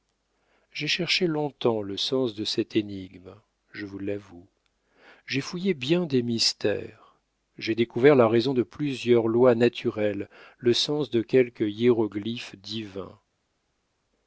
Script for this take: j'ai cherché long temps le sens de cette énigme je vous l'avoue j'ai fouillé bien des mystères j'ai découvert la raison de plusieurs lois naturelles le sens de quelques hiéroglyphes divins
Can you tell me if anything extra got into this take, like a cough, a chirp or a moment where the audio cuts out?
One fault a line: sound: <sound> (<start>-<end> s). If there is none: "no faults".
no faults